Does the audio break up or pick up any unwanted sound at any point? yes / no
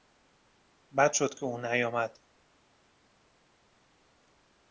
no